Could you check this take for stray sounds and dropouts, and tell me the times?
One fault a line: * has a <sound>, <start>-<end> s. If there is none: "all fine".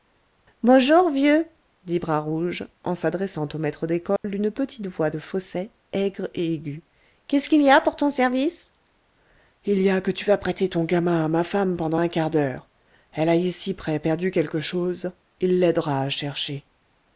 * has a dropout, 4.2-4.2 s